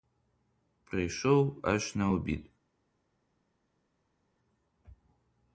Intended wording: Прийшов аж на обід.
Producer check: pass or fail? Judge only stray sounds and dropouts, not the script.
pass